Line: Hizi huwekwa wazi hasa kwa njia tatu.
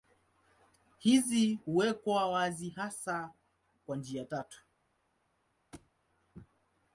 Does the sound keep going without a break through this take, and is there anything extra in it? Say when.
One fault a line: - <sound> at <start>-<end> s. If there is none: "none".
- thud at 5.7-5.9 s